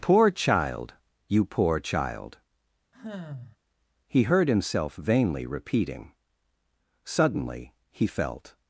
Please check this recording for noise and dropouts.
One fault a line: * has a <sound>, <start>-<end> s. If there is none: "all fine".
* has a sigh, 2.9-3.6 s